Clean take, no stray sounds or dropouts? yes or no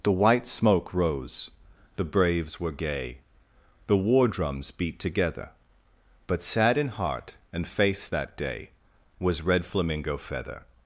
yes